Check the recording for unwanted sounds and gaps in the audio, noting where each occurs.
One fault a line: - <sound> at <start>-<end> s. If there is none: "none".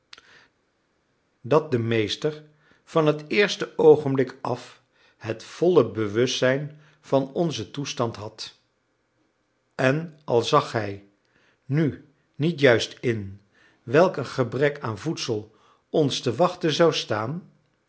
none